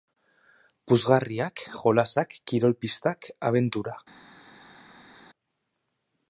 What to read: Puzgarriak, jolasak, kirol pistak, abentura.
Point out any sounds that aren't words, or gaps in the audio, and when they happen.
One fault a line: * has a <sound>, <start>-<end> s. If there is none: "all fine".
all fine